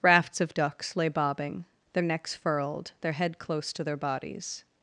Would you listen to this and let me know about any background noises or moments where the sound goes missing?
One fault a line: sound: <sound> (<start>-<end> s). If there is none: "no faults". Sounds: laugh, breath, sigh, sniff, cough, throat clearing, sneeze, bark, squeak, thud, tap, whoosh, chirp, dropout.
no faults